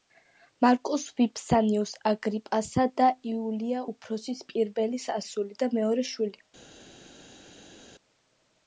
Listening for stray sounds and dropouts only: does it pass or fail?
pass